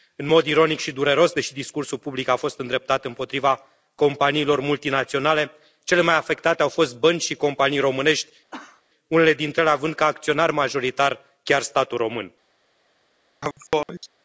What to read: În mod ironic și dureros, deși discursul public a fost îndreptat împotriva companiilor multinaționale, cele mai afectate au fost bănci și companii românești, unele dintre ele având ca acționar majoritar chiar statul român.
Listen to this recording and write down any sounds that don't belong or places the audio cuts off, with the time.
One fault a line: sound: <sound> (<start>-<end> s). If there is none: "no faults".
sound: cough (8.5-8.8 s)
sound: sneeze (13.4-14.1 s)